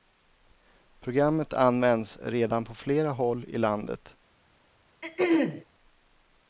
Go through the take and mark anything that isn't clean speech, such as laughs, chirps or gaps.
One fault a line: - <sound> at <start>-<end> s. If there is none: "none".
- throat clearing at 5.0-5.6 s